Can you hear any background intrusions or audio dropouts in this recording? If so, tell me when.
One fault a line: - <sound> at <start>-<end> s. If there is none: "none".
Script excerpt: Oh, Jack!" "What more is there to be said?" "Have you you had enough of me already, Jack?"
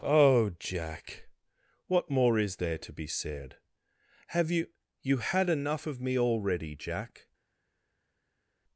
none